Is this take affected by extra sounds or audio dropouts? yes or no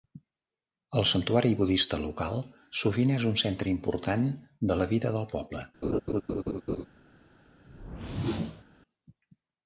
yes